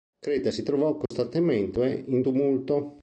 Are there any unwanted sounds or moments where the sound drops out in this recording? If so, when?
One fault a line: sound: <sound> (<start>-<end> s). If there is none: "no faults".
sound: dropout (1.1-1.1 s)